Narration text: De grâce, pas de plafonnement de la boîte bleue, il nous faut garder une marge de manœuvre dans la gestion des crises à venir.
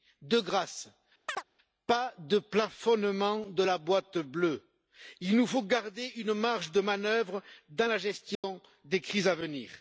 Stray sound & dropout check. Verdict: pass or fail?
fail